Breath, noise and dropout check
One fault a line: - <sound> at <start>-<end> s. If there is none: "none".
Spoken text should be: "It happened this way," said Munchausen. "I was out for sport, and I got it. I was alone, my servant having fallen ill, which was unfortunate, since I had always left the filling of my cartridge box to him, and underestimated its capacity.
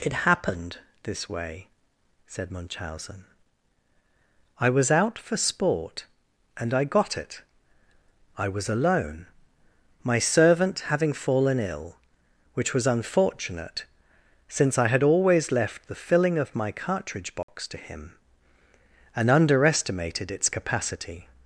- dropout at 17.4-17.5 s